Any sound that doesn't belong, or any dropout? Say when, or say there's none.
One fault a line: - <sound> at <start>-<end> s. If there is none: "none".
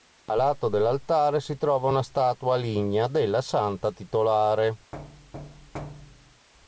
- thud at 4.9-6.5 s